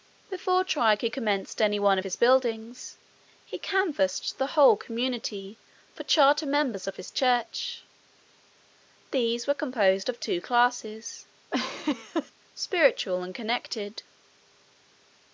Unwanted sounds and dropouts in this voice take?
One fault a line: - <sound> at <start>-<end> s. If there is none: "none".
- laugh at 11.5-12.3 s